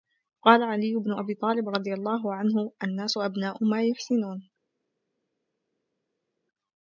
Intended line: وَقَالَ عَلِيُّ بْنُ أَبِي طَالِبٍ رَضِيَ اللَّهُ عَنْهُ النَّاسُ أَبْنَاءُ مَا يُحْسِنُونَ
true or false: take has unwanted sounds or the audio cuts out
false